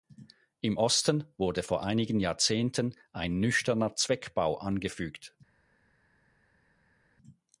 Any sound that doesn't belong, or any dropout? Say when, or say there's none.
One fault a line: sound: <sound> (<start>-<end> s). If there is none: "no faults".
no faults